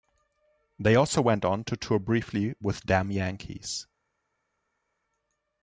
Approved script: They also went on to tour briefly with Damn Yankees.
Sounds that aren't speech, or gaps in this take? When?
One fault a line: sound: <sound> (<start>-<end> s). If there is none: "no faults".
no faults